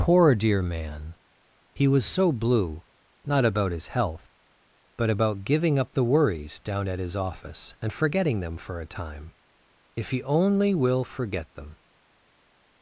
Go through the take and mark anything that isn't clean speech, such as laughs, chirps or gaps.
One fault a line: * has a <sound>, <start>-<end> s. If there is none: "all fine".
all fine